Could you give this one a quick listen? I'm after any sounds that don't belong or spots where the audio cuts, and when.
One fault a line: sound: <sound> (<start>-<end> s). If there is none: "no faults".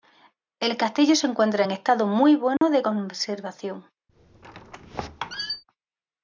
sound: dropout (2.6-2.6 s)
sound: squeak (4.1-5.6 s)